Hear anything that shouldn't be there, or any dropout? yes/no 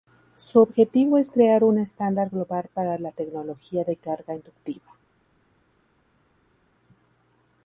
no